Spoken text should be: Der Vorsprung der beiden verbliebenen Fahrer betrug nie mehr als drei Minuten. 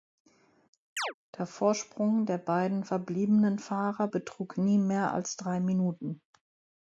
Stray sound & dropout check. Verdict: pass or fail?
fail